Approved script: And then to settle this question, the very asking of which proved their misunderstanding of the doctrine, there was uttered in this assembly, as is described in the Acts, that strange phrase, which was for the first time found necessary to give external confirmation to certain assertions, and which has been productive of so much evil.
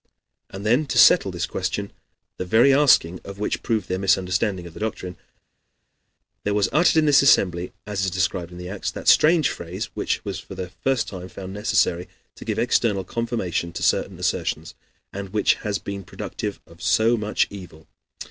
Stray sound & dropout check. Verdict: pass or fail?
pass